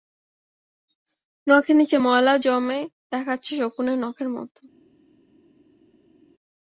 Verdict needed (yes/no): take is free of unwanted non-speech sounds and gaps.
yes